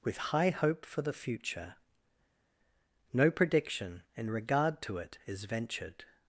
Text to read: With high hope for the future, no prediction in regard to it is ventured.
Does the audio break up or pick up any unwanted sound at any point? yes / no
no